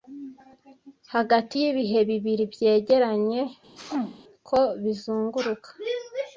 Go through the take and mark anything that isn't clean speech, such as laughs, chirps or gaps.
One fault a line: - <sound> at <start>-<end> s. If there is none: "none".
- sneeze at 3.8-4.2 s